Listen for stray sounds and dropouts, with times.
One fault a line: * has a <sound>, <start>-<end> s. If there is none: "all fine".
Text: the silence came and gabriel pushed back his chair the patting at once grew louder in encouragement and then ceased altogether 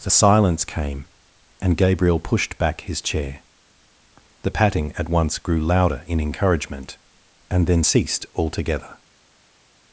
all fine